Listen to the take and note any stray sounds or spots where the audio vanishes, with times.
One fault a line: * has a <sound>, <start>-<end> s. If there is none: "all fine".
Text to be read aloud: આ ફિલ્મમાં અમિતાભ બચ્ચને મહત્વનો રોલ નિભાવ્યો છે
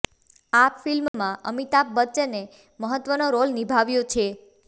* has a dropout, 1.1-1.1 s